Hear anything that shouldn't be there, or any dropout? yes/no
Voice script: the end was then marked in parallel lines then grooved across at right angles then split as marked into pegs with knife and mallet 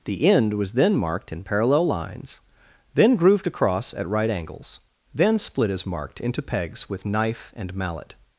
no